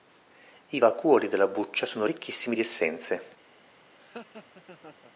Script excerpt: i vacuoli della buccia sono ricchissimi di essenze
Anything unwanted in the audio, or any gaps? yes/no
yes